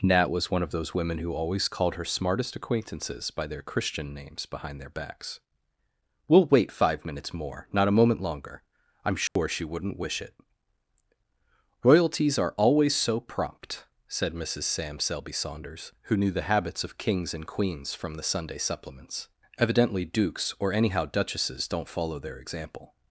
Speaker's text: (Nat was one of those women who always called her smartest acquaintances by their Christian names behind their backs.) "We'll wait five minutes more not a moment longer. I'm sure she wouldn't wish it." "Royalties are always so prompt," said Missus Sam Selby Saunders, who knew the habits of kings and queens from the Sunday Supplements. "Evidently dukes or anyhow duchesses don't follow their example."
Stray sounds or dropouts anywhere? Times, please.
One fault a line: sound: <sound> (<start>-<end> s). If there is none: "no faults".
sound: dropout (9.3-9.4 s)